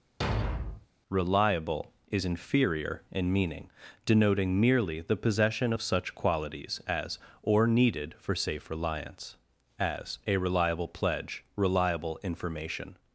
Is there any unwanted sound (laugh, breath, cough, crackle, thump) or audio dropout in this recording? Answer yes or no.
yes